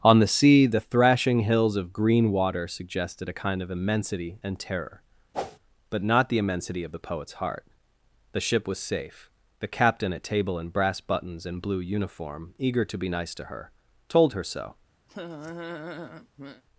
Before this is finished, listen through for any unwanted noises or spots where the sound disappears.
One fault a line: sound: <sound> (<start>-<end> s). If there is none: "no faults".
sound: whoosh (5.3-5.6 s)
sound: laugh (15.1-16.6 s)